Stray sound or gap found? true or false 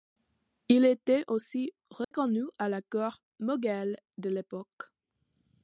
true